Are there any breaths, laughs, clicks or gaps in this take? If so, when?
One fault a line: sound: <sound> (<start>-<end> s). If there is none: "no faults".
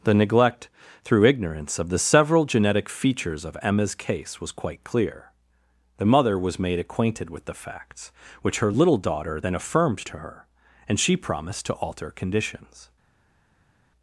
no faults